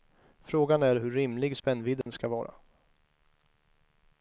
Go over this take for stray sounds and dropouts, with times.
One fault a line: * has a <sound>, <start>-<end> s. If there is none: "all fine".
* has a dropout, 2.0-2.1 s